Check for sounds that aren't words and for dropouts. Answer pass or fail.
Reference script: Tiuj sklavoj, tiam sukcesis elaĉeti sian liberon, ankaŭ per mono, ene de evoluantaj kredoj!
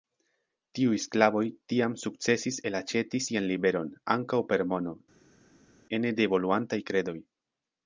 pass